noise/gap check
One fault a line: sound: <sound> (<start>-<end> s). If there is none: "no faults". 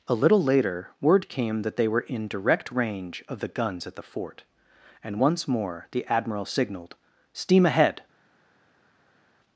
no faults